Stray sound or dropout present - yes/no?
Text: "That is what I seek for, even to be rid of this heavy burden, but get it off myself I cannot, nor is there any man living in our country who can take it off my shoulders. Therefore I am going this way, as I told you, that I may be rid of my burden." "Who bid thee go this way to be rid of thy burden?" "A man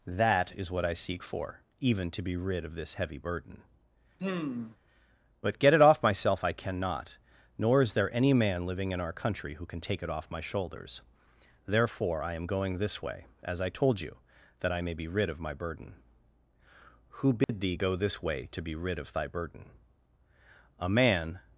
yes